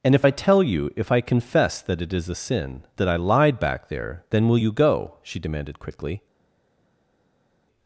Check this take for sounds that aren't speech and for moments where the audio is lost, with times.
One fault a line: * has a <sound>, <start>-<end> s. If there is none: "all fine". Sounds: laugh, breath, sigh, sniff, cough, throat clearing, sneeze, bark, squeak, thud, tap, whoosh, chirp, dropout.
all fine